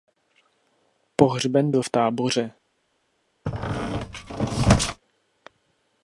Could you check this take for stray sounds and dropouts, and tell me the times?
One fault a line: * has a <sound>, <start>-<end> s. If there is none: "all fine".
* has a squeak, 3.5-5.0 s